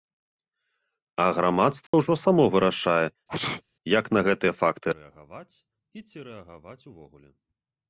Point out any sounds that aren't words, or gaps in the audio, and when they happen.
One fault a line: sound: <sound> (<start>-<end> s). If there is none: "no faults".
sound: dropout (1.9-1.9 s)
sound: sneeze (3.3-3.6 s)